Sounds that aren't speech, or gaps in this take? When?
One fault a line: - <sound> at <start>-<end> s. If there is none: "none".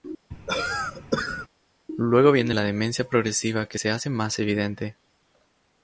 - cough at 0.3-1.5 s